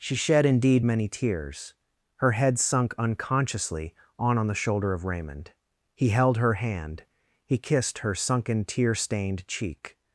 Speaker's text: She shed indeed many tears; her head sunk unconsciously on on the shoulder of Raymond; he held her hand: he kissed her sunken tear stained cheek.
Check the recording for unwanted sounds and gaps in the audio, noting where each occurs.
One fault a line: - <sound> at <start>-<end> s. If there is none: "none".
none